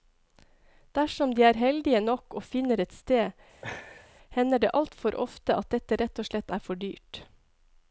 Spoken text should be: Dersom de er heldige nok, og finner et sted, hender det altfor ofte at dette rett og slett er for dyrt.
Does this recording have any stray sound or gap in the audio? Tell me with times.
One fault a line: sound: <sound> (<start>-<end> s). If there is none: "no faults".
sound: laugh (3.6-4.1 s)